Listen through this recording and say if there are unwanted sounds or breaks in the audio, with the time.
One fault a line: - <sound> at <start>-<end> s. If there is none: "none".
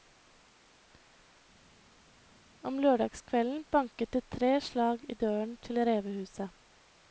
none